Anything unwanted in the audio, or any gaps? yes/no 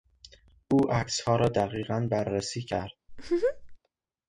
yes